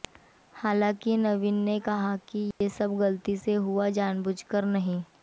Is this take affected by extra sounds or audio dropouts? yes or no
yes